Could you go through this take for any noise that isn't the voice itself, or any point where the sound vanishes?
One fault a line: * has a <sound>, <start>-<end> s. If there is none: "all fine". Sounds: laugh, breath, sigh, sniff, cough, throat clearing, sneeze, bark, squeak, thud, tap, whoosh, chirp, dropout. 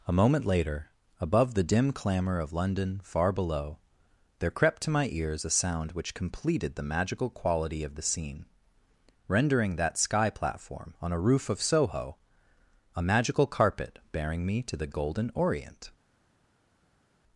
all fine